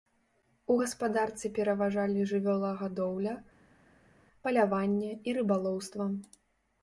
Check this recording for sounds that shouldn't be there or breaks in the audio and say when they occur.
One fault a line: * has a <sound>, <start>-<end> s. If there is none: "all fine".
all fine